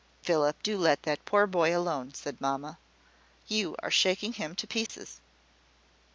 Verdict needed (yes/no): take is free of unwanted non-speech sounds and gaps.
no